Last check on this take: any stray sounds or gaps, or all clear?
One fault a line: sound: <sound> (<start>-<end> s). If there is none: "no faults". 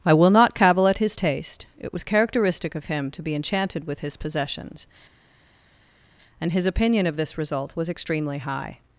no faults